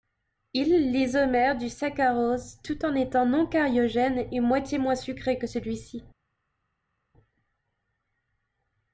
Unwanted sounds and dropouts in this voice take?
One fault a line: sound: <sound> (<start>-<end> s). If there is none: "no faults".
no faults